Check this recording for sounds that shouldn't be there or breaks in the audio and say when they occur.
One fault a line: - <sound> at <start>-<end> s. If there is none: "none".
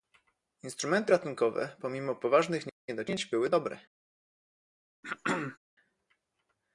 - throat clearing at 5.0-5.6 s